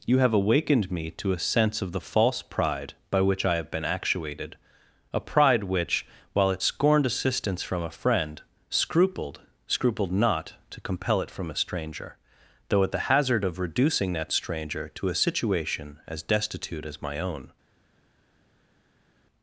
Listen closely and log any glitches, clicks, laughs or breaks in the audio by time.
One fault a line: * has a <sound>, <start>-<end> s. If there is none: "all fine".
all fine